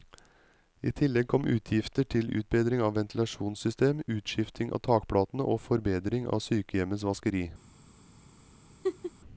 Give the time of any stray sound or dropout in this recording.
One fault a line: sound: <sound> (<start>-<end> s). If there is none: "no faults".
sound: laugh (8.8-9.1 s)